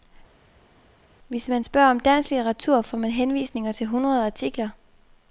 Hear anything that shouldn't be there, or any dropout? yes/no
no